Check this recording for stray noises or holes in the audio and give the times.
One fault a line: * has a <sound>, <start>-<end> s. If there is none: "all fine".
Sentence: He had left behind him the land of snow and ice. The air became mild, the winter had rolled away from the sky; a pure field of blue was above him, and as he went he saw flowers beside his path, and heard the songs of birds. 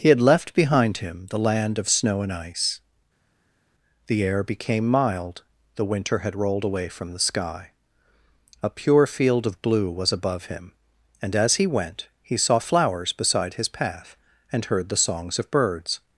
all fine